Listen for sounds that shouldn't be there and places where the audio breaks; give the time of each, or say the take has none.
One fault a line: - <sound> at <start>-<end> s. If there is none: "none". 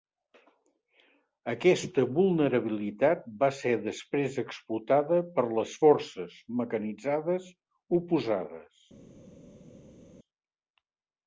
none